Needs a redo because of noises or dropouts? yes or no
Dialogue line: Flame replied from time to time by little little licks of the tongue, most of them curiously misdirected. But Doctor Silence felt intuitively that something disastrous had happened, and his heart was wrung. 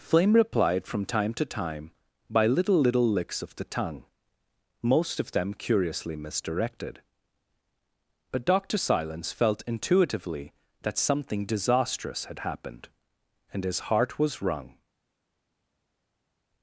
no